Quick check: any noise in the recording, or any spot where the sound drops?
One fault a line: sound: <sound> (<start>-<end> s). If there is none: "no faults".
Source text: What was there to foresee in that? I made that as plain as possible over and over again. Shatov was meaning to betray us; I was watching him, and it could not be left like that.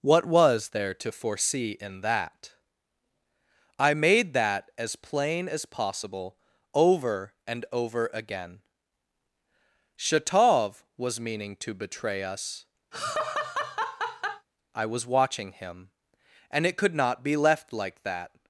sound: laugh (12.9-14.5 s)